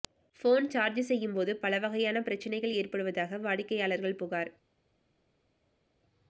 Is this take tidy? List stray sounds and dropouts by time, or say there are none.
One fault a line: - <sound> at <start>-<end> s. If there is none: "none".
none